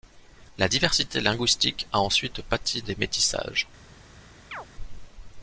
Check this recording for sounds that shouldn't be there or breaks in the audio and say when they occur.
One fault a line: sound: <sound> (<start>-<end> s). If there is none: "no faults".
sound: chirp (4.5-4.7 s)